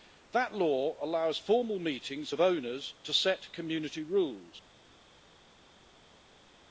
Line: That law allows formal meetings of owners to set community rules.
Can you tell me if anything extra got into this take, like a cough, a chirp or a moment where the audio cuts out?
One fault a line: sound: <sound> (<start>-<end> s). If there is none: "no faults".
no faults